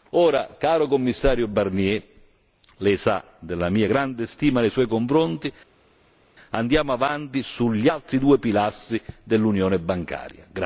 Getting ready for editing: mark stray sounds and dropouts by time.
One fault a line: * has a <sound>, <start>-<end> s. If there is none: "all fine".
all fine